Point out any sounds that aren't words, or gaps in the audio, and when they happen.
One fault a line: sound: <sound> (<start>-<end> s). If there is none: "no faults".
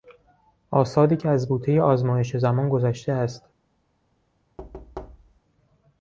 sound: thud (4.6-5.4 s)